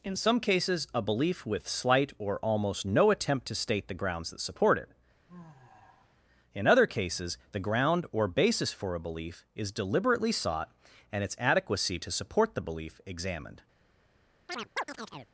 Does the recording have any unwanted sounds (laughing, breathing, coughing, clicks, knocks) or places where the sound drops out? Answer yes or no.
yes